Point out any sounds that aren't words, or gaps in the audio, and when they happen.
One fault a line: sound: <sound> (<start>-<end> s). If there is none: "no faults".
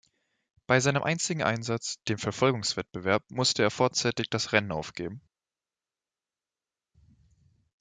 no faults